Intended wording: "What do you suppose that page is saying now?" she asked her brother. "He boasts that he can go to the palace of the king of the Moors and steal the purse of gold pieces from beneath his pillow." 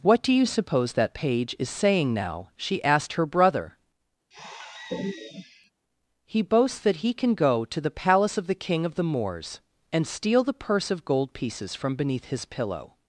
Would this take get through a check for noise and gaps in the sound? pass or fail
fail